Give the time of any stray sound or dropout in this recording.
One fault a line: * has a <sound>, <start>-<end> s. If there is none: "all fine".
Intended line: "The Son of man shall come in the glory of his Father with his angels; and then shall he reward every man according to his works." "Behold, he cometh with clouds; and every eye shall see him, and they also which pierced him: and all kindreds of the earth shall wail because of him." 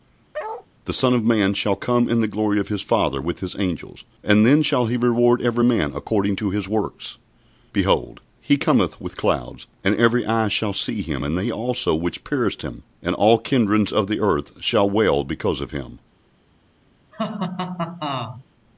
* has a bark, 0.3-0.7 s
* has a laugh, 17.1-18.4 s